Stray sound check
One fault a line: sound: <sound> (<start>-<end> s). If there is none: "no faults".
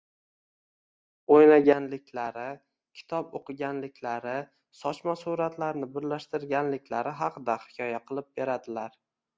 no faults